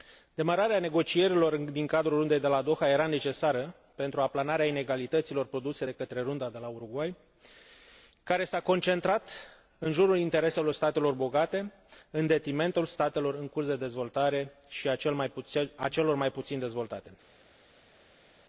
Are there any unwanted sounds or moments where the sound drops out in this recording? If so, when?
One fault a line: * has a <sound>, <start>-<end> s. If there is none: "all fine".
all fine